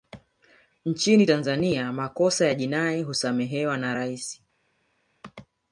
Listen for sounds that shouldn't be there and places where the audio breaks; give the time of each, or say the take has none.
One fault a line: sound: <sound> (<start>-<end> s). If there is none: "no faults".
no faults